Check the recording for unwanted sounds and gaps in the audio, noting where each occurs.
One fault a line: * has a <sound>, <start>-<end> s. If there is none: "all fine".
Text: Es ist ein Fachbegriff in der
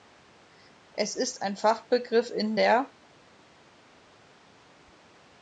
all fine